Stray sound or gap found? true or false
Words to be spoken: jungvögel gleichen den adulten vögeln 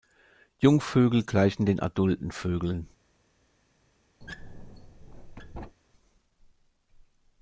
true